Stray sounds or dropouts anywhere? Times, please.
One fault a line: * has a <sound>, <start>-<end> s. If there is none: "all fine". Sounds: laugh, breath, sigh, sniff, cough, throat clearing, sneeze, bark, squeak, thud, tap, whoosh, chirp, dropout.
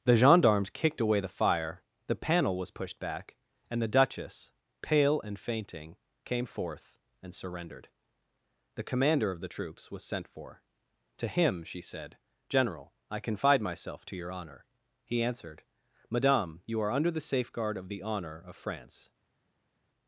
all fine